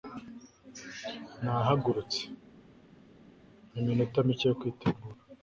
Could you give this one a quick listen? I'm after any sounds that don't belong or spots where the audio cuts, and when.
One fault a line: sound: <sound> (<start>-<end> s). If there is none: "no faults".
no faults